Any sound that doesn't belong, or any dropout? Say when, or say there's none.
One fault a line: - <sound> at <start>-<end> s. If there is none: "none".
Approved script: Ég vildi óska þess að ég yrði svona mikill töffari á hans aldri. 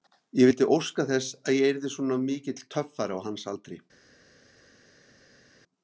none